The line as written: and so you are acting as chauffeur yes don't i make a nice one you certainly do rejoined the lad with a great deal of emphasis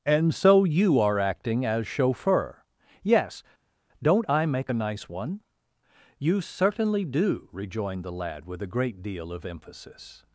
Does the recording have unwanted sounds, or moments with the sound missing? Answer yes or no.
no